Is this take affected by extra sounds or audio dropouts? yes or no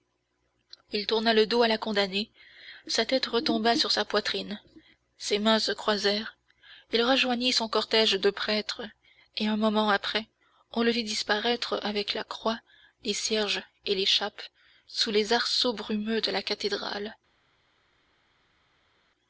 no